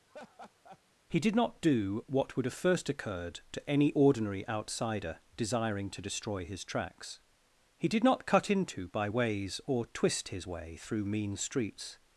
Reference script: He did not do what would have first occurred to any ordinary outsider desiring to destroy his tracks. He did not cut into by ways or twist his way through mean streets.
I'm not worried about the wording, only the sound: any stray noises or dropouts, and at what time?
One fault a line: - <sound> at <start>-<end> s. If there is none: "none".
- laugh at 0.1-0.8 s